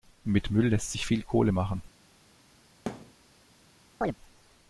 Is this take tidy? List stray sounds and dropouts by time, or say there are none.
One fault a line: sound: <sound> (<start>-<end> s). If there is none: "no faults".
sound: thud (2.9-3.1 s)
sound: chirp (4.0-4.2 s)